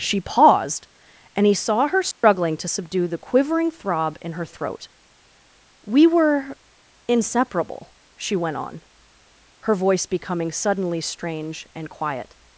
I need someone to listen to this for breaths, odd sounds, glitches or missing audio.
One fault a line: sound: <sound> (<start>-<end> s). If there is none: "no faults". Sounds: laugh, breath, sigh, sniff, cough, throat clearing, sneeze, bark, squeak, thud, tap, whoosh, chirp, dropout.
sound: dropout (2.1-2.2 s)